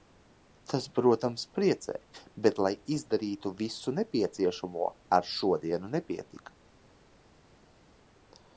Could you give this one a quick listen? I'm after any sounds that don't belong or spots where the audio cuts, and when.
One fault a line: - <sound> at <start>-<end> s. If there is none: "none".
none